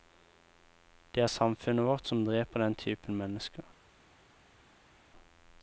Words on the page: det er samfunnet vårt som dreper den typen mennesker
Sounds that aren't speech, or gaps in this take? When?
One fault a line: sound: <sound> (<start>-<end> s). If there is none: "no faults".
no faults